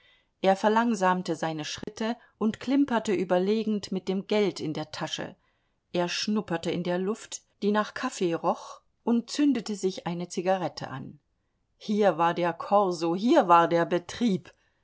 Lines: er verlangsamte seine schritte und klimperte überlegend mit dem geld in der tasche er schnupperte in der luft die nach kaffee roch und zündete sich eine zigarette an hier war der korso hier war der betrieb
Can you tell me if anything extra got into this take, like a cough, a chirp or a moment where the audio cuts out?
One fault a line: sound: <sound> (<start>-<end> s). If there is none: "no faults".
sound: dropout (1.8-1.9 s)